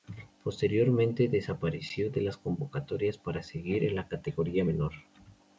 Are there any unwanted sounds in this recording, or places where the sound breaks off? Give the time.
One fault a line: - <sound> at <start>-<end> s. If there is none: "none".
none